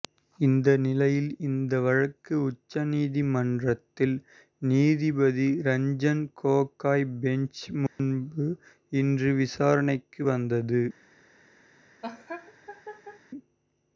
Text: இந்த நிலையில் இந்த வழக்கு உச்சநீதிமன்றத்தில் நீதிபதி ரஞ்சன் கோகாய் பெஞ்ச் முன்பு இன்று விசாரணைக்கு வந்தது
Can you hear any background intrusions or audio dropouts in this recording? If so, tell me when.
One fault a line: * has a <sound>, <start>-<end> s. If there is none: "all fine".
* has a dropout, 7.9-8.0 s
* has a laugh, 12.0-13.2 s